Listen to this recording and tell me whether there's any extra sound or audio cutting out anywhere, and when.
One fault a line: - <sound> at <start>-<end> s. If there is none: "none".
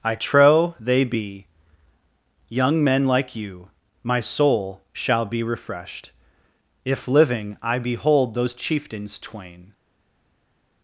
none